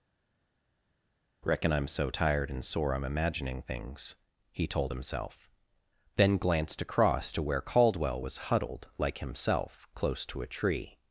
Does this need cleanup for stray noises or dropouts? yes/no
no